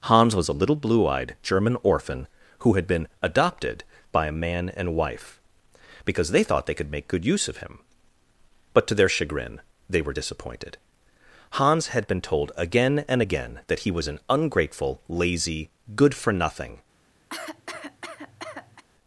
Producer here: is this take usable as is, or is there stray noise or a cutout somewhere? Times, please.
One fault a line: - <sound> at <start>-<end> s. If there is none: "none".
- cough at 17.3-18.8 s